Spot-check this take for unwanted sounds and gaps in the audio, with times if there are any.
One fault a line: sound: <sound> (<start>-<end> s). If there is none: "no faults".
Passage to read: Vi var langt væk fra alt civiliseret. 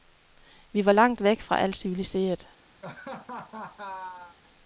sound: laugh (2.8-4.4 s)